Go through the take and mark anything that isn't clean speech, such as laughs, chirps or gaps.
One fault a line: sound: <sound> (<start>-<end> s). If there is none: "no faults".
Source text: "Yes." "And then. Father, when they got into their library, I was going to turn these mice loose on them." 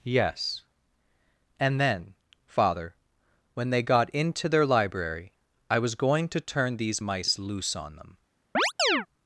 sound: chirp (8.5-9.1 s)